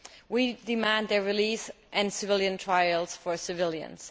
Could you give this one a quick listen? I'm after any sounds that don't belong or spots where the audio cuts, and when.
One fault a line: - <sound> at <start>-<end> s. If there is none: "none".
none